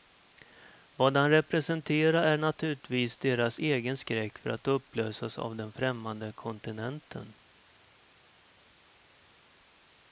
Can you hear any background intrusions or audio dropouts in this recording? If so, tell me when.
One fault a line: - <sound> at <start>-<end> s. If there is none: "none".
none